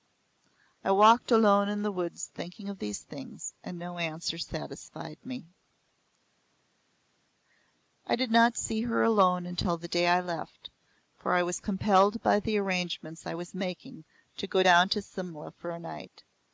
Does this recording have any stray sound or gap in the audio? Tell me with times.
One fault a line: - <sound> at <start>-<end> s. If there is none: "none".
none